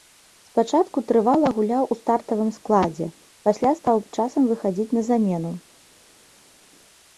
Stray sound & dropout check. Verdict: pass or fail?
pass